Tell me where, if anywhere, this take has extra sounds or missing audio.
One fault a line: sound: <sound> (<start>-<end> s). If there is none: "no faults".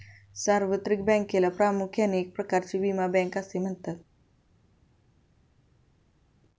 no faults